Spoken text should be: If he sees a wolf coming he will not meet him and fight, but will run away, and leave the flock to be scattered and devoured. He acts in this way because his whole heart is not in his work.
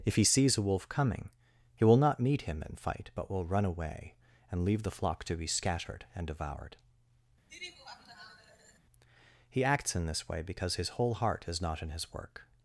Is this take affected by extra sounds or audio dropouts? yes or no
yes